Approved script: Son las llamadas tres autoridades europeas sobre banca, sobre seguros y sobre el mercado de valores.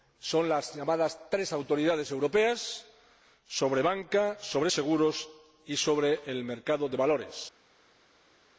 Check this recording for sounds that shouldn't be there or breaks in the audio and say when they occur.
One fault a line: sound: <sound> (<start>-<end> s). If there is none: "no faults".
no faults